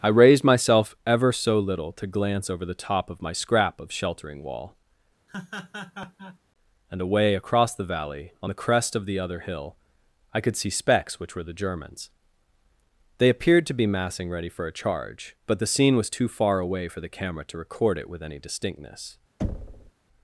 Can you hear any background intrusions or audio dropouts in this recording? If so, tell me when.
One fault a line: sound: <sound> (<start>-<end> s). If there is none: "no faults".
sound: laugh (5.3-6.4 s)
sound: thud (19.4-19.9 s)